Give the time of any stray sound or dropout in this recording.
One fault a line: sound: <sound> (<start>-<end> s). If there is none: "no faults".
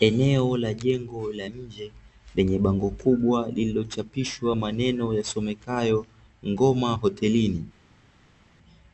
no faults